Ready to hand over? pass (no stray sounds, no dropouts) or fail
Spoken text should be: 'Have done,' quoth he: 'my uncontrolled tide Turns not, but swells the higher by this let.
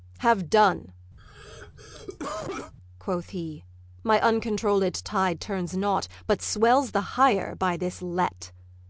fail